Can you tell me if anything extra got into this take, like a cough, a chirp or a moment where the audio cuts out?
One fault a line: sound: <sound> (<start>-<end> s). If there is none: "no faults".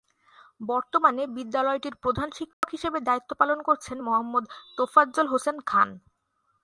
sound: dropout (2.5-2.6 s)